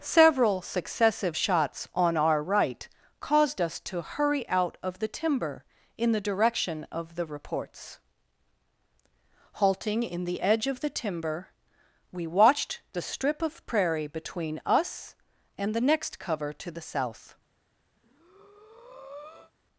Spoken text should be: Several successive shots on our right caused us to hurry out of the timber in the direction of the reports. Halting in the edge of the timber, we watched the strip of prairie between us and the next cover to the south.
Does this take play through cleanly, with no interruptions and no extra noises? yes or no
no